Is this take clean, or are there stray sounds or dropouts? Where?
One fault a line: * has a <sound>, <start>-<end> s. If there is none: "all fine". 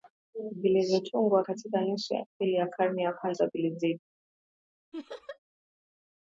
* has a laugh, 4.9-5.4 s